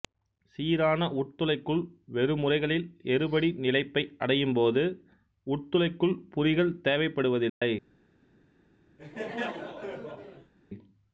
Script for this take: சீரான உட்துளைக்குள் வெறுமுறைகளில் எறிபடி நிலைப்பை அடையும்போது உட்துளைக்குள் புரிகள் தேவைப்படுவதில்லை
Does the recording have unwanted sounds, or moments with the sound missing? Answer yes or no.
yes